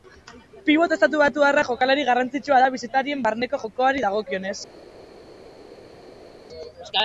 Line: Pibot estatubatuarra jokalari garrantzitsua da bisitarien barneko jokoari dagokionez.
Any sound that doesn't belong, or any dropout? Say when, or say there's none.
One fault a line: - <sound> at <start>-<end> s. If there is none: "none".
none